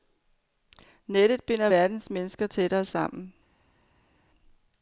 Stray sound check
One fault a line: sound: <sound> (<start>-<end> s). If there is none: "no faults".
no faults